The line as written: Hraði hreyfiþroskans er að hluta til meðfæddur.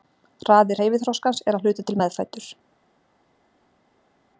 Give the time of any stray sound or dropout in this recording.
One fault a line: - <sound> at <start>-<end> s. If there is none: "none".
none